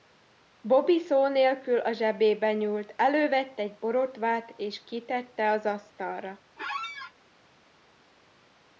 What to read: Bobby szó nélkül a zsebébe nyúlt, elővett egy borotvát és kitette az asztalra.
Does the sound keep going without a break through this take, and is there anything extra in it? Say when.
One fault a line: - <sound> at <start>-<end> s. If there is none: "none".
- squeak at 6.6-7.1 s